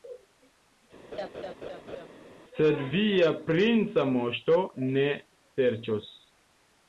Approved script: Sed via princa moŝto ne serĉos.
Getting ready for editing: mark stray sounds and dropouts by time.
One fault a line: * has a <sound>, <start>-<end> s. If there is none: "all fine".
* has a laugh, 1.1-2.1 s